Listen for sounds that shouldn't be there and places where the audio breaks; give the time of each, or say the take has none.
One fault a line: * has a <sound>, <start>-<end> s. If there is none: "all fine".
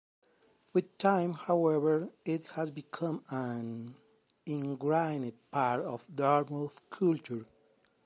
all fine